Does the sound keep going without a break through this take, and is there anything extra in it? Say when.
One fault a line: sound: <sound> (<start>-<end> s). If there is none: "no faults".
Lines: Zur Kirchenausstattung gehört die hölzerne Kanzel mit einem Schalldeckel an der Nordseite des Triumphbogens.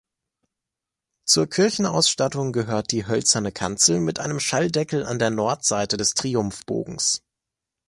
no faults